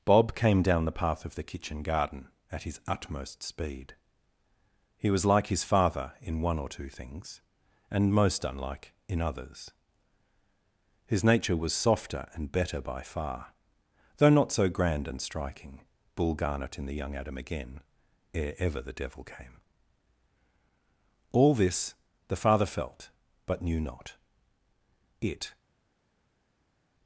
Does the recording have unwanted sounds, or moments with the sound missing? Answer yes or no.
no